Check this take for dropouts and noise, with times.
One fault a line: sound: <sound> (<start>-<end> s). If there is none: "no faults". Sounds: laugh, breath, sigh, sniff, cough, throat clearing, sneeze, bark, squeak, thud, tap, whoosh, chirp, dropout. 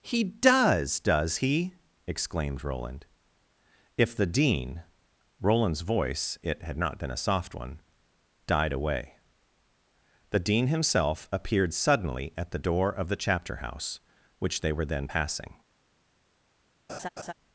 sound: laugh (16.9-17.3 s)